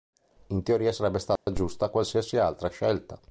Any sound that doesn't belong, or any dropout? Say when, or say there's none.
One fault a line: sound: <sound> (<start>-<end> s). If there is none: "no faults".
sound: dropout (1.4-1.5 s)